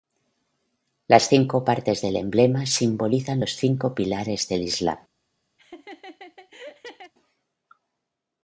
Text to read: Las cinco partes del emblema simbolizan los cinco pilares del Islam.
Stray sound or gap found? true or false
true